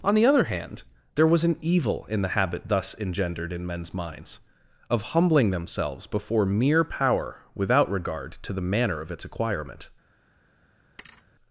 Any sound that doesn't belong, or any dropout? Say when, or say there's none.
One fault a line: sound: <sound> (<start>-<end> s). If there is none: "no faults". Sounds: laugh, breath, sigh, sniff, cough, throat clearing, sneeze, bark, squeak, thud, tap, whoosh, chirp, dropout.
sound: thud (11.0-11.3 s)